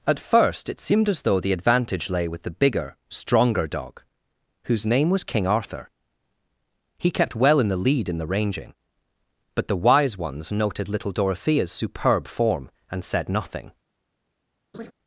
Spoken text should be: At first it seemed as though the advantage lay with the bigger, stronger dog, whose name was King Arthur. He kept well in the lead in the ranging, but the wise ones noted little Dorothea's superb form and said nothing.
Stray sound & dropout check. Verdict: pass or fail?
fail